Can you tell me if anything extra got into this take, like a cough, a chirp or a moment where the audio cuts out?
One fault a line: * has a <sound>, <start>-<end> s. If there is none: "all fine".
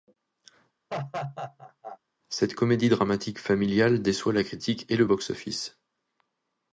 * has a laugh, 0.9-2.0 s